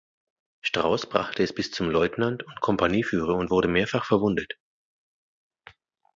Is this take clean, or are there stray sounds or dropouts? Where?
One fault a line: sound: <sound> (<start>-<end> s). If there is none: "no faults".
no faults